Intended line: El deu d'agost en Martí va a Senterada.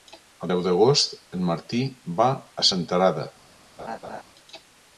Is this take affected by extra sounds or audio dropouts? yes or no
yes